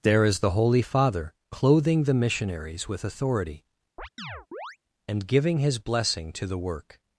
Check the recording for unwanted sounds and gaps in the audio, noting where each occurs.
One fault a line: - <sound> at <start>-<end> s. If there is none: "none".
- chirp at 4.0-4.8 s